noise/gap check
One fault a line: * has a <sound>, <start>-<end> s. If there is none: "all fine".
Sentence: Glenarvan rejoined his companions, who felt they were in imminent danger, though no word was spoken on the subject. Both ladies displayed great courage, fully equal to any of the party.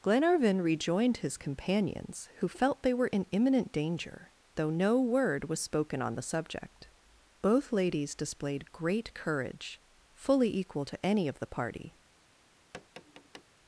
* has a tap, 12.7-13.4 s